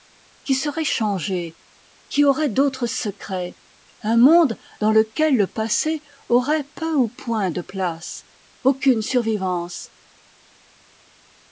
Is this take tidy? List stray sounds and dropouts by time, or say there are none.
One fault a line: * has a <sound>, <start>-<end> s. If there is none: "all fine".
all fine